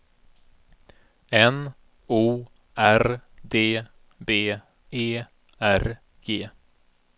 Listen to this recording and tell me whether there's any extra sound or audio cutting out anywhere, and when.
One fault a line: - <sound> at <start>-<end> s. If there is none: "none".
none